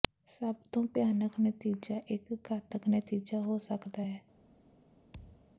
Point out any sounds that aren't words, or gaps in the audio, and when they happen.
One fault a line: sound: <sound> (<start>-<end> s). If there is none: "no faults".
sound: thud (5.1-5.6 s)